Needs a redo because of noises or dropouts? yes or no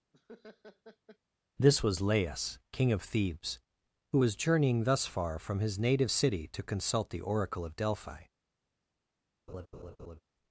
yes